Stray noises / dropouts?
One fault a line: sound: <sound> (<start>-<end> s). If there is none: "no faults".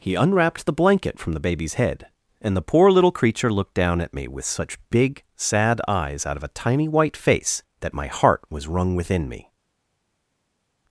no faults